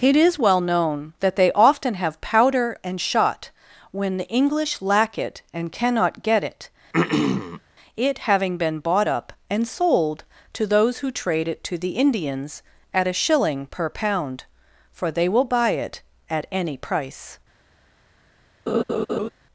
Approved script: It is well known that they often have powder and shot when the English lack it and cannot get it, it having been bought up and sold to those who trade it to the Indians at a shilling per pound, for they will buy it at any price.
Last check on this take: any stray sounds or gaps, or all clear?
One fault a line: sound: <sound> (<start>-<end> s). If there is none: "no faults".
sound: throat clearing (6.9-7.6 s)
sound: laugh (18.7-19.3 s)